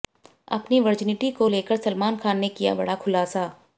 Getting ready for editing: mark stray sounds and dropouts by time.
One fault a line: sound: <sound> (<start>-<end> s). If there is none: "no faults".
no faults